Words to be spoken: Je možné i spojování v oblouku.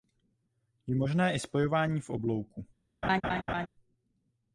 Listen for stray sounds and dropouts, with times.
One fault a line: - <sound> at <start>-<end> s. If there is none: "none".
- laugh at 3.0-3.7 s